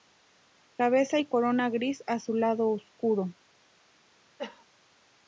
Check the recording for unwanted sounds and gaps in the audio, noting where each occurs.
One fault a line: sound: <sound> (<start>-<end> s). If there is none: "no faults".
sound: cough (4.4-4.7 s)